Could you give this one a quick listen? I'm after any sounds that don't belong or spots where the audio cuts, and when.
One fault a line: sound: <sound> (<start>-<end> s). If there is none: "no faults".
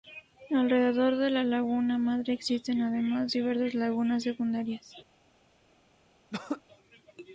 sound: throat clearing (6.3-6.6 s)